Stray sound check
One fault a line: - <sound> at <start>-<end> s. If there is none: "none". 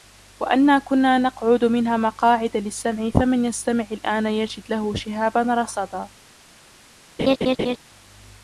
- laugh at 7.2-7.8 s